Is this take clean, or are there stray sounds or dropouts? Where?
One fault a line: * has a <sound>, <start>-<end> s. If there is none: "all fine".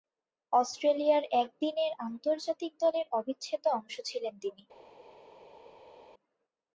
all fine